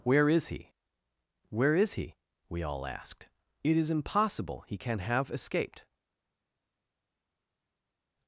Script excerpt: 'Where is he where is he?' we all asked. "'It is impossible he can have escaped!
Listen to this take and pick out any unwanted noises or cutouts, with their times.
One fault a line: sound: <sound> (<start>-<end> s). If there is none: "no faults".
no faults